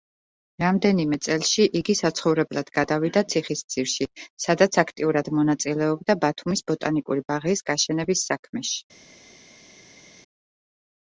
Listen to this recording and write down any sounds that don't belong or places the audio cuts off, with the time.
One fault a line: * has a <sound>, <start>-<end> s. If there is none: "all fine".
all fine